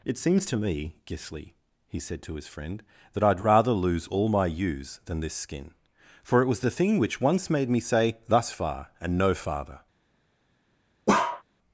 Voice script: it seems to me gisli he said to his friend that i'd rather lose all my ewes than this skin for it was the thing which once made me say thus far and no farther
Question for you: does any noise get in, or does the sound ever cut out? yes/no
yes